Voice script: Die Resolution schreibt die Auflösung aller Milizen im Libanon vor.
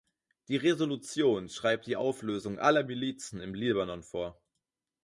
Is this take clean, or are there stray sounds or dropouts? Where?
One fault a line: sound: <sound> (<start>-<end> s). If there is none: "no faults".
no faults